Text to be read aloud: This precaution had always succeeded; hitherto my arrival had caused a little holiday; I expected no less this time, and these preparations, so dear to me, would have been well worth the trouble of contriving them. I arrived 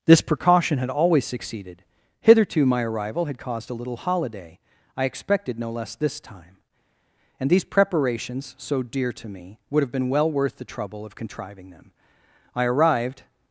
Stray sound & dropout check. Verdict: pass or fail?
pass